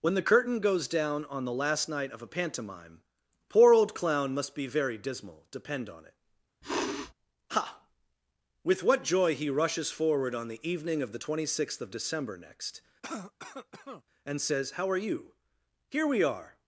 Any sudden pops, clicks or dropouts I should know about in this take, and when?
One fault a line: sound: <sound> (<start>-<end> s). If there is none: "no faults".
sound: sniff (6.6-7.1 s)
sound: cough (13.0-14.0 s)